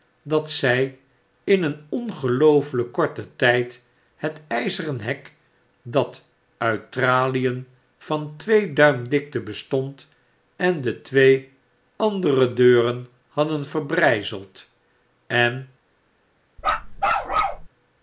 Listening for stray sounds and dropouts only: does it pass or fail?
fail